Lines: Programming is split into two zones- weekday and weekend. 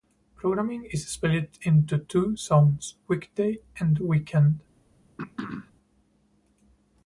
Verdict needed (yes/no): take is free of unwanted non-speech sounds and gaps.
no